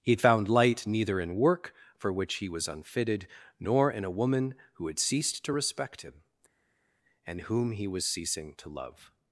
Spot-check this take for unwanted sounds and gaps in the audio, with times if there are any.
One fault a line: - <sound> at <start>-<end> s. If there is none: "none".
none